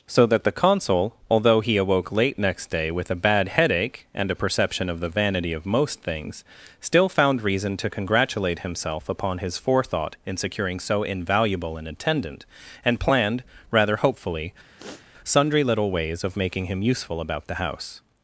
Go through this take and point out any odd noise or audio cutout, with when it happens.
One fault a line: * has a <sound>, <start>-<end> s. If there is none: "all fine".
* has a sniff, 14.8-15.1 s